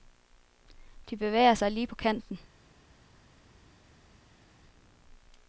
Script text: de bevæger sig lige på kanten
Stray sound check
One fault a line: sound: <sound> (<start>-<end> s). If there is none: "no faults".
no faults